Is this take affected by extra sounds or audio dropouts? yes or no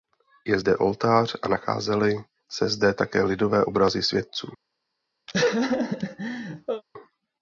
yes